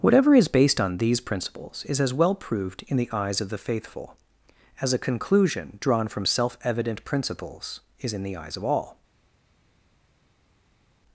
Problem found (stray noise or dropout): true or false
false